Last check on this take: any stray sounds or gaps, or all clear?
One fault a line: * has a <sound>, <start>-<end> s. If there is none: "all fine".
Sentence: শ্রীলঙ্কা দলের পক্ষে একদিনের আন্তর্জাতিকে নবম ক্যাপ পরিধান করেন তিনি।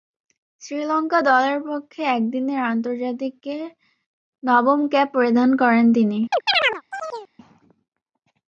* has a chirp, 6.3-7.3 s